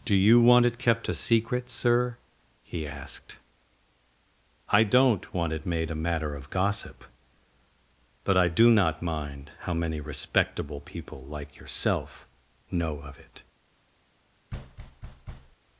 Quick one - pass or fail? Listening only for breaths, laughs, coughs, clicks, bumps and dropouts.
fail